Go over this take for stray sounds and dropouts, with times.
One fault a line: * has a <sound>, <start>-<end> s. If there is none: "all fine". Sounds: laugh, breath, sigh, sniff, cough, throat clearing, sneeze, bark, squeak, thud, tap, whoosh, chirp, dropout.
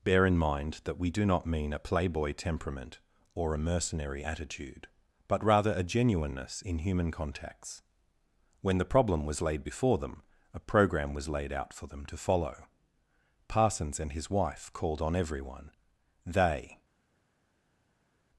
all fine